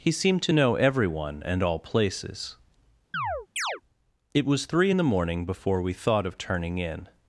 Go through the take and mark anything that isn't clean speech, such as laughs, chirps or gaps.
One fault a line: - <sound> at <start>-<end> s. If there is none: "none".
- chirp at 3.1-3.8 s